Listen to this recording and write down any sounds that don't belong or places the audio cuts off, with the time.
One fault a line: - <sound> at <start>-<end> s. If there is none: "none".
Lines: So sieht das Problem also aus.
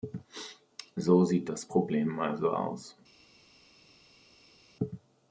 none